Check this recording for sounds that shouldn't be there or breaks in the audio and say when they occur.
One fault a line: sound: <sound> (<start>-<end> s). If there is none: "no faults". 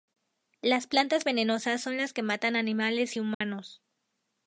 sound: dropout (3.3-3.4 s)